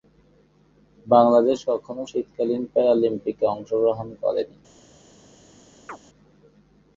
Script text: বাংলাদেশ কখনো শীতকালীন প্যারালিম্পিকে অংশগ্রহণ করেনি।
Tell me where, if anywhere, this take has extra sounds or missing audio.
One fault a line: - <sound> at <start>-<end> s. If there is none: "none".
- chirp at 5.9-6.0 s